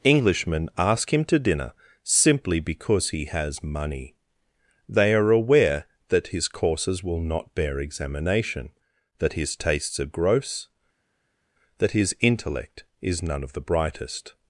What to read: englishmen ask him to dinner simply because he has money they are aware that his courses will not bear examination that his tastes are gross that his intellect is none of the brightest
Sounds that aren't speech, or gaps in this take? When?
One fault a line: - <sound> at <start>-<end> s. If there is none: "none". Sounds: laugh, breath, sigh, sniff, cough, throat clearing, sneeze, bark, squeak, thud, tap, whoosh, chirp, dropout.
none